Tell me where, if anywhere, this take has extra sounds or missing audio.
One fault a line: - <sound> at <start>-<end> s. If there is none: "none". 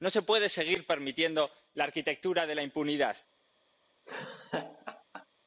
- laugh at 4.0-5.3 s